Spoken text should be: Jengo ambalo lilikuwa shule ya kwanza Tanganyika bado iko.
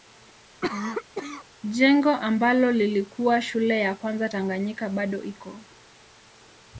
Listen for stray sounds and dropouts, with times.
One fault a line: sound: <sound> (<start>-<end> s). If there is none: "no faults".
sound: cough (0.6-1.5 s)